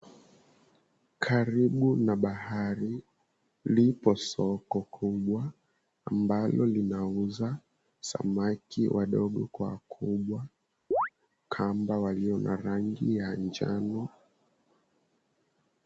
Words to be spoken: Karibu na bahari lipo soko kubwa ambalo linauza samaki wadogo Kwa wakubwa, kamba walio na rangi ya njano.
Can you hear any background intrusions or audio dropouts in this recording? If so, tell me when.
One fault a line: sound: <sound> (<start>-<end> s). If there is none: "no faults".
sound: chirp (10.9-11.1 s)